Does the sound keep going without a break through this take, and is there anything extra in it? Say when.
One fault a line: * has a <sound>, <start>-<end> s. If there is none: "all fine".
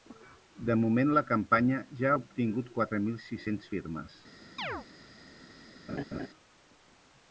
* has a chirp, 4.6-4.9 s
* has a laugh, 5.9-6.3 s